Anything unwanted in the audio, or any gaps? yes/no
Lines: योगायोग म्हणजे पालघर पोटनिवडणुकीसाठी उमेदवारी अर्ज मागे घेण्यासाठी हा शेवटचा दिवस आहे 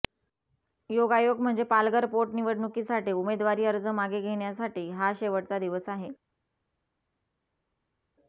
no